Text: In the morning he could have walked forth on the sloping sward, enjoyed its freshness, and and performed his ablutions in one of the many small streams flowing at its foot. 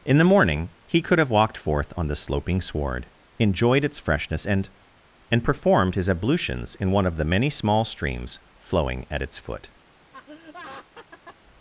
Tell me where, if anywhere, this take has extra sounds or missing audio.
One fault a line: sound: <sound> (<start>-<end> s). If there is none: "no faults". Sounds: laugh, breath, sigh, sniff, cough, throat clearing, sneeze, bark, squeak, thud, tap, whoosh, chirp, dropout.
sound: laugh (10.1-11.4 s)